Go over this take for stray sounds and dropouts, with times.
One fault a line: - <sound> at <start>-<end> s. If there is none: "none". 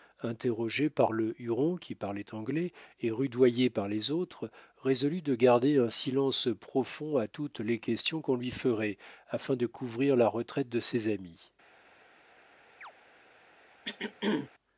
- chirp at 12.8-12.9 s
- throat clearing at 13.8-14.5 s